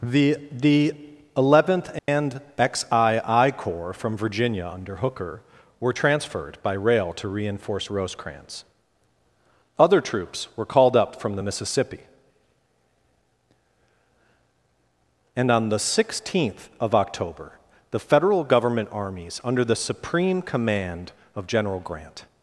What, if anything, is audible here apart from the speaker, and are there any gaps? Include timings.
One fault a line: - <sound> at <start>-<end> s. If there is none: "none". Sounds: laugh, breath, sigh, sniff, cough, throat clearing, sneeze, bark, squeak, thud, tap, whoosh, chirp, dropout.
- dropout at 2.0-2.1 s